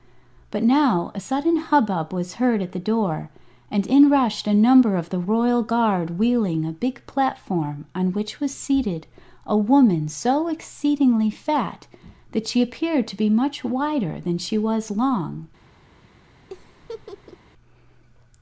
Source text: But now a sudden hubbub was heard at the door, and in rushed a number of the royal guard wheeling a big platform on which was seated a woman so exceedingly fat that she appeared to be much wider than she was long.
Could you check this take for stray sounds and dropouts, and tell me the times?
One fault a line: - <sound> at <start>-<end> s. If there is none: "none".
- laugh at 16.5-17.4 s